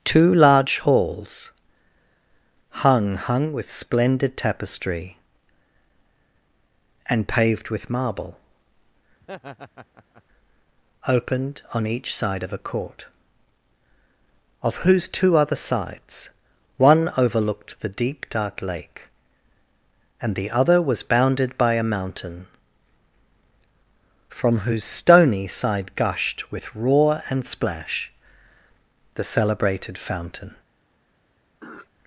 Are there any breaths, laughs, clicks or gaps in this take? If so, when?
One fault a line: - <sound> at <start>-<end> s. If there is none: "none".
- laugh at 9.2-10.2 s
- throat clearing at 31.6-31.9 s